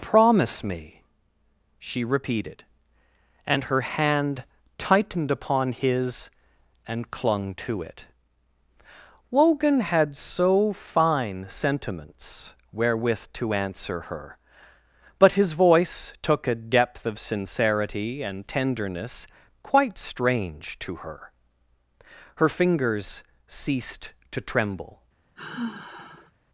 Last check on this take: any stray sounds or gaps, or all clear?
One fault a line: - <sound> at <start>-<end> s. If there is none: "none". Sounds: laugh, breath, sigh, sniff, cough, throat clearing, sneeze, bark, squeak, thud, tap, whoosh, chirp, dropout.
- sigh at 25.4-26.3 s